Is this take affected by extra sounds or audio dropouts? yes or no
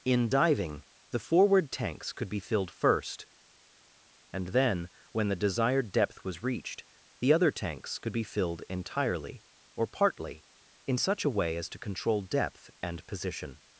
no